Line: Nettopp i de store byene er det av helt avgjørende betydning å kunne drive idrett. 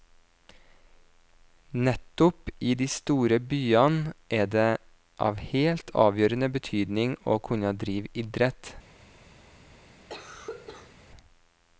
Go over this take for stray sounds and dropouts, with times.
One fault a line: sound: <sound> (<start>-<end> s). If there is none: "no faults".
sound: cough (10.1-10.9 s)